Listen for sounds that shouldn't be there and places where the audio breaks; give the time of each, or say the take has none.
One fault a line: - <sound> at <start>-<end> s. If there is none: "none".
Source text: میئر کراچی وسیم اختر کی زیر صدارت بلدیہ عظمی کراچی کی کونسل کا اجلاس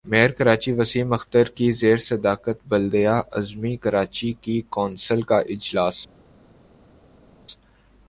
none